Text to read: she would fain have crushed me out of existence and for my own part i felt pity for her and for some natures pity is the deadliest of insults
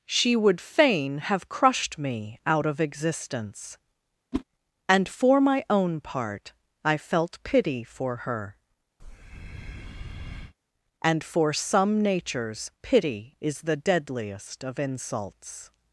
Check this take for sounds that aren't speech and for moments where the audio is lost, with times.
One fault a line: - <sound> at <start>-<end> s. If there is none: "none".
- whoosh at 4.3-4.4 s
- breath at 9.0-10.5 s